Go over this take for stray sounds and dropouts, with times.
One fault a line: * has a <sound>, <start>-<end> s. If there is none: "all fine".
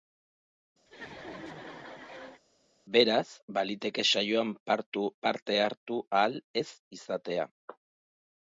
* has a laugh, 0.9-2.4 s